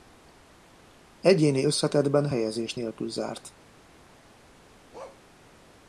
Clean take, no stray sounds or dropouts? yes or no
no